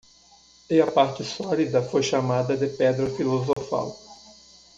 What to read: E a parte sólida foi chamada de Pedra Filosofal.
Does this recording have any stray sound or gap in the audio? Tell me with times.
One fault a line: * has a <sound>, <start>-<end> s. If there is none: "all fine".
* has a dropout, 3.5-3.6 s